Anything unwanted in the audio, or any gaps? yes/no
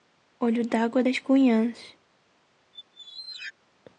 yes